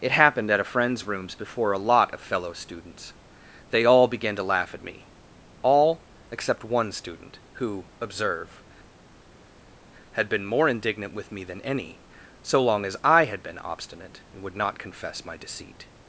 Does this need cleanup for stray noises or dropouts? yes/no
no